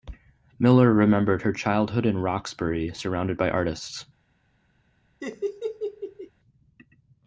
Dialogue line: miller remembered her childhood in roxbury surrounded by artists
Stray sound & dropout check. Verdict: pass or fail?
fail